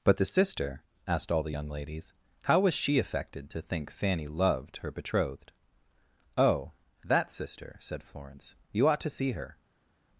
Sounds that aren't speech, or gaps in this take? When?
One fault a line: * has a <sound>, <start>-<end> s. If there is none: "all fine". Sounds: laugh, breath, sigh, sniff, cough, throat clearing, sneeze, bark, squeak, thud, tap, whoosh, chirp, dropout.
all fine